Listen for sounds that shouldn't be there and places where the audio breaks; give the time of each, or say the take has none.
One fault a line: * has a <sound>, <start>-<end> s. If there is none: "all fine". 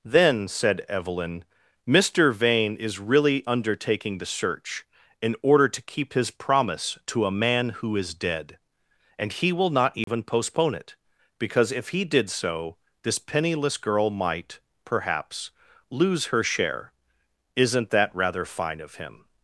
* has a dropout, 10.0-10.1 s